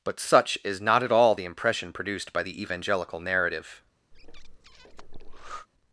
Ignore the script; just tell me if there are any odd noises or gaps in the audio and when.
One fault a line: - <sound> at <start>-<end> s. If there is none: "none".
- breath at 4.1-5.7 s